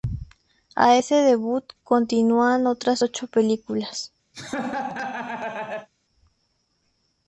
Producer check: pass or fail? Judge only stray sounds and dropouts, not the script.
fail